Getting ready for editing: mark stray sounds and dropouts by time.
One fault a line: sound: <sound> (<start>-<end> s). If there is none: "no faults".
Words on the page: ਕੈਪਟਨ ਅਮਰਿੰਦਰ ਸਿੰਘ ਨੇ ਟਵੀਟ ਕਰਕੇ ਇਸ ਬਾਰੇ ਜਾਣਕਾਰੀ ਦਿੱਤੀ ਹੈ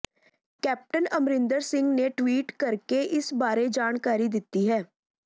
no faults